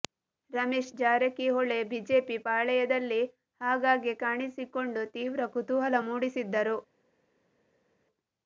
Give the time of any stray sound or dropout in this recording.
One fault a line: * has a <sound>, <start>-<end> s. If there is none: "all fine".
all fine